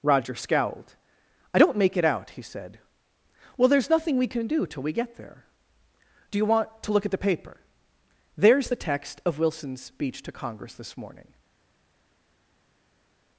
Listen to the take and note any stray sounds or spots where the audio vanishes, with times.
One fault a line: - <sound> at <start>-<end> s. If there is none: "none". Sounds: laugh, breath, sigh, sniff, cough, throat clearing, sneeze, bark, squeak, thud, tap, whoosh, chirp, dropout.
none